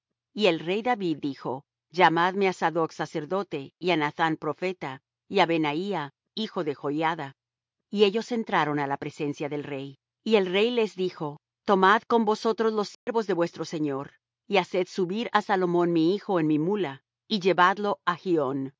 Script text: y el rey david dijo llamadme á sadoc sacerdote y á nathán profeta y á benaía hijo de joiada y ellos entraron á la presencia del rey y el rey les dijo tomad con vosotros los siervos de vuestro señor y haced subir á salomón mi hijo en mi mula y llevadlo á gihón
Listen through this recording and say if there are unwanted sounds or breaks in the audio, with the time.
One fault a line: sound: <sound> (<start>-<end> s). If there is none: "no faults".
sound: dropout (12.9-13.1 s)